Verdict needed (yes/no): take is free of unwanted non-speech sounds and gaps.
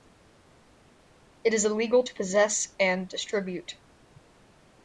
yes